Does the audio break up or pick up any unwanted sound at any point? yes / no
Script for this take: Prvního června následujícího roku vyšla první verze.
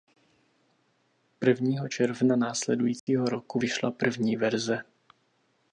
yes